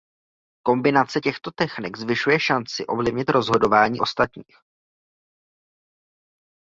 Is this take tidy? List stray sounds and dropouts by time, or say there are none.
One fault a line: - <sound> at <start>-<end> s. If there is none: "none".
none